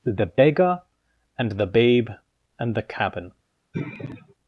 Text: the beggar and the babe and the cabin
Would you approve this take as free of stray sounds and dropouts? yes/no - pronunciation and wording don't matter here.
no